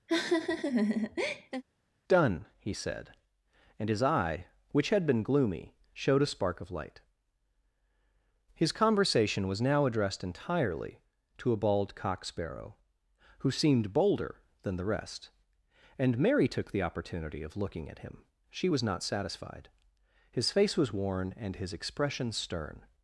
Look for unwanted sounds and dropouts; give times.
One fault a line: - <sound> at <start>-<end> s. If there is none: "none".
- laugh at 0.1-1.6 s